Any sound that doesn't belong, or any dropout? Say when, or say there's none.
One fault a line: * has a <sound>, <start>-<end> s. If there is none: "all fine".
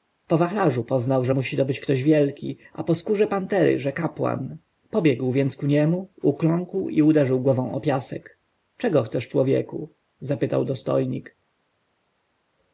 all fine